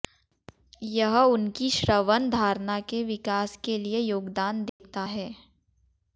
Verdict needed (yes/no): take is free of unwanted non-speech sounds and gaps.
no